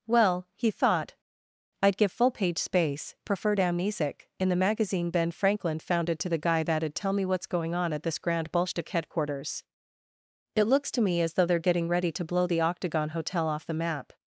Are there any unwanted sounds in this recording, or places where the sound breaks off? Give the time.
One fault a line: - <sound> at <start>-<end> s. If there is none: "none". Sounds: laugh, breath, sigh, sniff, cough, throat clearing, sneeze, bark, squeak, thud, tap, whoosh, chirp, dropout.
none